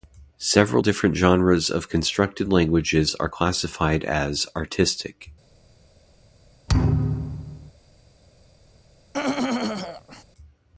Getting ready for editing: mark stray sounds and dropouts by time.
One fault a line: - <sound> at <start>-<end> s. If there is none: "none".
- thud at 6.7-7.7 s
- throat clearing at 9.1-10.2 s